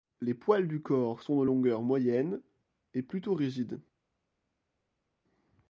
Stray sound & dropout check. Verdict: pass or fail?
pass